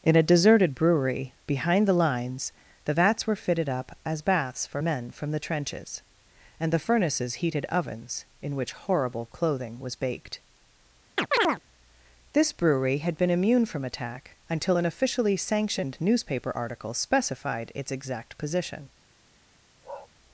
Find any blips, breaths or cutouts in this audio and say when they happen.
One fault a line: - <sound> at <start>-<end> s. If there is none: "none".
- chirp at 11.2-11.6 s
- bark at 19.8-20.1 s